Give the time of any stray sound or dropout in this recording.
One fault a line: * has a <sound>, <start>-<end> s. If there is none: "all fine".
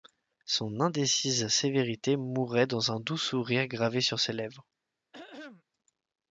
* has a throat clearing, 5.1-5.6 s